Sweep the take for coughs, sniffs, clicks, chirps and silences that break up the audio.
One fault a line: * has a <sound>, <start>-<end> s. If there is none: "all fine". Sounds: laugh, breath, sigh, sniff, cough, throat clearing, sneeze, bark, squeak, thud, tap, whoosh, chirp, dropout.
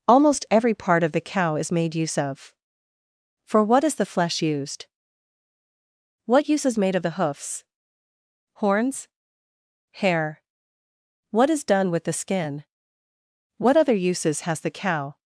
all fine